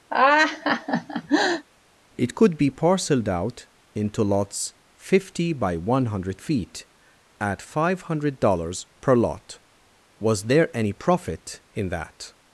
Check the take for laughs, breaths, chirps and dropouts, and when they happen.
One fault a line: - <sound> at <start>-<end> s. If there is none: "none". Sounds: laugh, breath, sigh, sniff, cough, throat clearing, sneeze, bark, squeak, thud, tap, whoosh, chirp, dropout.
- laugh at 0.1-1.7 s